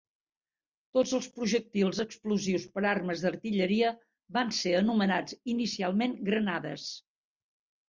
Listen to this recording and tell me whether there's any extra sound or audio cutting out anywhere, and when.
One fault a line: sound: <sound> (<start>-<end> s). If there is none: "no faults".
no faults